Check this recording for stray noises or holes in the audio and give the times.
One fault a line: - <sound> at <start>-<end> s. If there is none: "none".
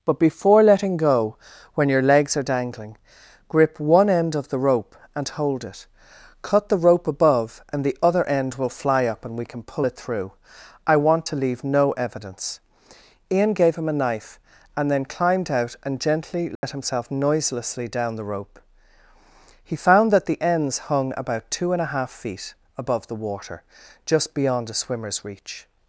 - dropout at 16.6-16.6 s